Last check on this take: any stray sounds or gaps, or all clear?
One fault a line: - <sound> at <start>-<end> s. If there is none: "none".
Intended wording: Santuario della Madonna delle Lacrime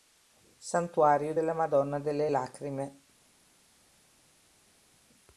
none